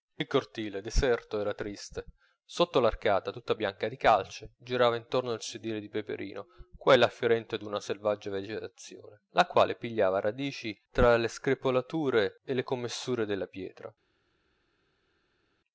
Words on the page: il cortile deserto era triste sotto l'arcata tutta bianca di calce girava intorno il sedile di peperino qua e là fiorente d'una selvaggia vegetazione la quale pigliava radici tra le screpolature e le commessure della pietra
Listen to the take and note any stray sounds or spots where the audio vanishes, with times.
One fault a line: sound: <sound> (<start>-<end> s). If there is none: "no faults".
no faults